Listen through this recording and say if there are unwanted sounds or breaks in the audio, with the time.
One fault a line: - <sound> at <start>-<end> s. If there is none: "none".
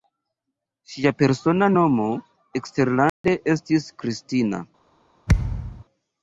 - dropout at 3.1-3.2 s
- thud at 5.3-5.8 s